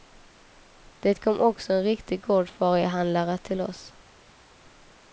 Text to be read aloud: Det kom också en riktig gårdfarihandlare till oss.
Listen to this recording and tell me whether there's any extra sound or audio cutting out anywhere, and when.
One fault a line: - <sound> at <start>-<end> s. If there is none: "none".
none